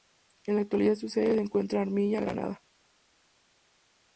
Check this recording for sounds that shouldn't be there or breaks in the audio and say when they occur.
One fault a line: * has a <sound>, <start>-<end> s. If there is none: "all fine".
all fine